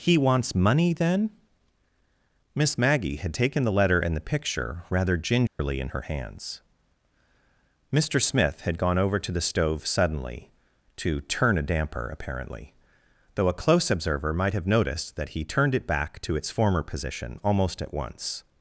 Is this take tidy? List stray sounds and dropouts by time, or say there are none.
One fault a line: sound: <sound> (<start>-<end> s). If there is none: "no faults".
sound: dropout (5.5-5.6 s)